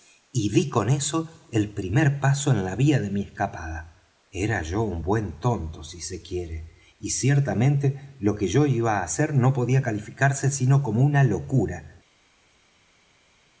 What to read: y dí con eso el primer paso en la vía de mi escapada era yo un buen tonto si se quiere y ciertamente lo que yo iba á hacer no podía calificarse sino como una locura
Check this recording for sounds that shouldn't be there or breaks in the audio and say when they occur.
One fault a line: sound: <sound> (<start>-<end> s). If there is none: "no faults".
no faults